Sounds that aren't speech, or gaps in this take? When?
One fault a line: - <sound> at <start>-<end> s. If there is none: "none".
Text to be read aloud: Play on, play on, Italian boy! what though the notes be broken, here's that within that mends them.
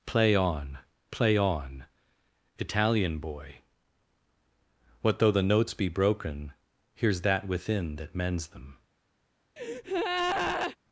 - breath at 9.6-10.8 s